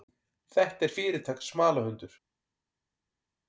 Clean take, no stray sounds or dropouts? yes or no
yes